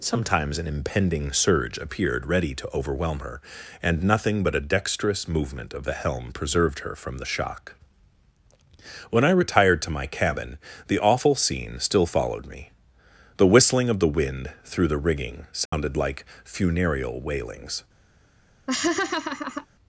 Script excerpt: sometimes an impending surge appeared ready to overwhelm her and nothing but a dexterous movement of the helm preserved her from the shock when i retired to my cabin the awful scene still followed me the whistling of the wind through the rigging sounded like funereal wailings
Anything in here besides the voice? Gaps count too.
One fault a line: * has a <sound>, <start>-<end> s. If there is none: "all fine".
* has a dropout, 15.7-15.7 s
* has a laugh, 18.7-19.7 s